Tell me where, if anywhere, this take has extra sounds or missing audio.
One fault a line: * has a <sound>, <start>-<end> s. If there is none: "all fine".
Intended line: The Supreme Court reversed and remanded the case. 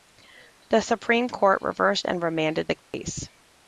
* has a dropout, 2.8-2.9 s